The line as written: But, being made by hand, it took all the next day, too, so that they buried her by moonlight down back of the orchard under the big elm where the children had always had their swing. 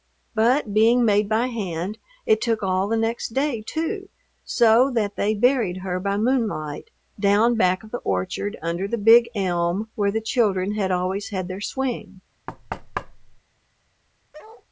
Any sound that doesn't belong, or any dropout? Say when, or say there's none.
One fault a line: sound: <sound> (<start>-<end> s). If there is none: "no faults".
sound: thud (12.5-13.4 s)
sound: bark (14.3-14.7 s)